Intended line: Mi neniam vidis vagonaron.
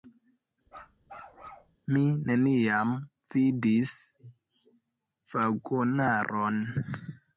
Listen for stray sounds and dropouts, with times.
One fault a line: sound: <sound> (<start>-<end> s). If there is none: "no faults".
sound: bark (0.7-1.8 s)